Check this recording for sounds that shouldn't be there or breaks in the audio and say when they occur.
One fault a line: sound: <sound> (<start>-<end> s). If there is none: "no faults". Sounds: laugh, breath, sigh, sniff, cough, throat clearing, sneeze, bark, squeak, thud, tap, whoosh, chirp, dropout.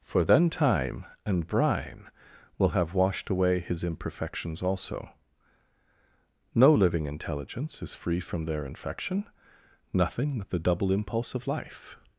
no faults